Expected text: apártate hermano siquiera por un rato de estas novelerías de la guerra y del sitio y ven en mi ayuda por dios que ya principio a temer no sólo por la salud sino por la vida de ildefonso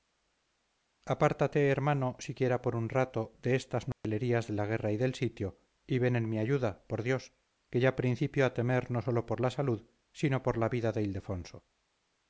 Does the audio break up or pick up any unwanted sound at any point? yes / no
yes